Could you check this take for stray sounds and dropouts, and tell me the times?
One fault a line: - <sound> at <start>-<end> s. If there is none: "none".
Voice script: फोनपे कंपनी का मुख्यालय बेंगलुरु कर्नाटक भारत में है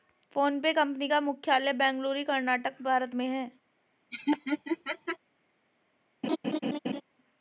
- laugh at 4.1-5.2 s
- laugh at 6.2-7.0 s